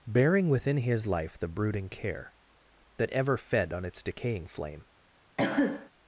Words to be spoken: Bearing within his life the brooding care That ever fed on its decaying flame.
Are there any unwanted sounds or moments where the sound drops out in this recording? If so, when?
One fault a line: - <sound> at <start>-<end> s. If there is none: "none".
- cough at 5.4-5.9 s